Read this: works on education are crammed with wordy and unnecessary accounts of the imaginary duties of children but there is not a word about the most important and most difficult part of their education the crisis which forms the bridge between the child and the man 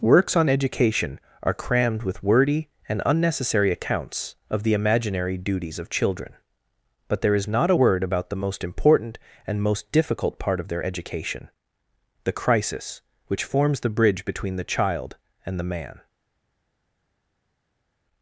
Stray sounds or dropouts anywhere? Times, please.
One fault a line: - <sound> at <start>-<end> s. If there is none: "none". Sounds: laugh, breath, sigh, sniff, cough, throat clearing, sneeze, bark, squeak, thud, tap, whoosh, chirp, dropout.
none